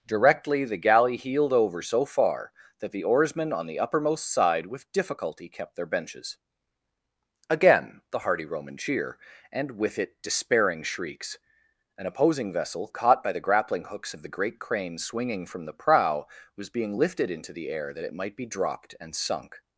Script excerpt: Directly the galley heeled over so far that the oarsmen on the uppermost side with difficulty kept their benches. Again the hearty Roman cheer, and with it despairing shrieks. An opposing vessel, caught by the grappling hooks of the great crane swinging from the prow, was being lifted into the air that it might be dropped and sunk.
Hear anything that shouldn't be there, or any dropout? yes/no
no